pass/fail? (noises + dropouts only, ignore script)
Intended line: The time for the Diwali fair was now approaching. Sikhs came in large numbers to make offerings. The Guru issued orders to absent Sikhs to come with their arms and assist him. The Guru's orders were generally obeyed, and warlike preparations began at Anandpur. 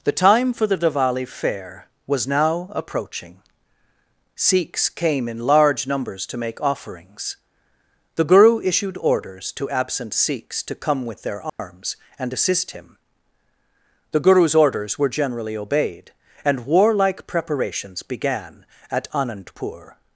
fail